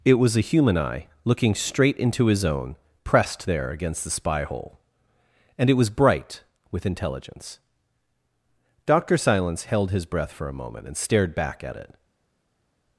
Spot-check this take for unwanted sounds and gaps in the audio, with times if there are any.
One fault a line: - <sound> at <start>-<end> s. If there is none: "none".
none